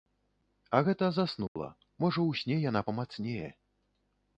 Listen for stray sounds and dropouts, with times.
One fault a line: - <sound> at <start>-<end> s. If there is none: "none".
- dropout at 1.5-1.6 s